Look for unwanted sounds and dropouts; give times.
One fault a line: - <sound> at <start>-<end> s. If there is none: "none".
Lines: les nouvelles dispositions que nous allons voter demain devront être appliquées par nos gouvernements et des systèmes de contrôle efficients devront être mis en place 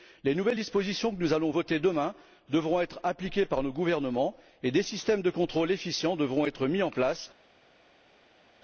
none